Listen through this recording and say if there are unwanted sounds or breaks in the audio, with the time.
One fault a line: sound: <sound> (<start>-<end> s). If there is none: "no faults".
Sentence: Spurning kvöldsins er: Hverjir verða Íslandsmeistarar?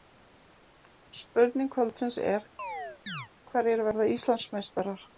sound: chirp (2.6-3.3 s)